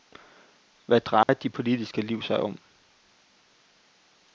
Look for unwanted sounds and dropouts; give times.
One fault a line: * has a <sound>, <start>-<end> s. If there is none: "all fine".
* has a dropout, 1.2-1.3 s